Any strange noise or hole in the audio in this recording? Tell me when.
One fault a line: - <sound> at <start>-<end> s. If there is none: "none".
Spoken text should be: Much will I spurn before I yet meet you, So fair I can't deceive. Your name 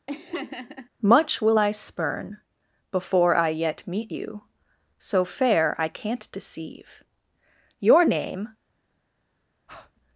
- laugh at 0.1-0.9 s
- breath at 9.7-9.9 s